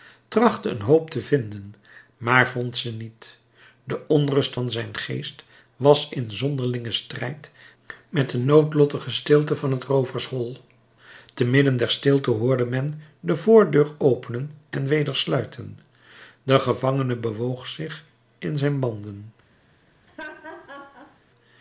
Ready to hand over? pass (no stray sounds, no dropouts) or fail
fail